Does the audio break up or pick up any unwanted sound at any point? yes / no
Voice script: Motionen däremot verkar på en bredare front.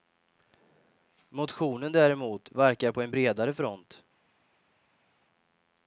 no